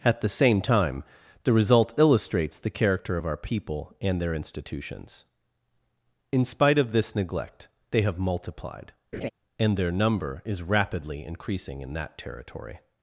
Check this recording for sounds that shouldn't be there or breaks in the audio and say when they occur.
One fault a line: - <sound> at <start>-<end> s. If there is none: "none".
- laugh at 9.1-9.3 s